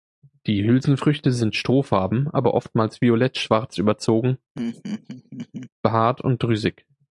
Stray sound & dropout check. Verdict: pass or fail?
fail